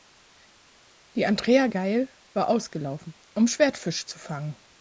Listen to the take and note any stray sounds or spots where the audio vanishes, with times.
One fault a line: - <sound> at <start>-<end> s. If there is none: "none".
none